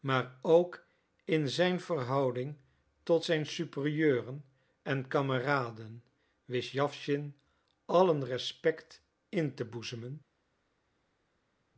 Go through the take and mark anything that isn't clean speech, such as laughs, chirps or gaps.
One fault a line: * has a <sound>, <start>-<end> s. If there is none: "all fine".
all fine